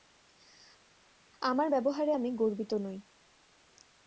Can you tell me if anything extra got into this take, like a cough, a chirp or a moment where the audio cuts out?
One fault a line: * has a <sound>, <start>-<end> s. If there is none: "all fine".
all fine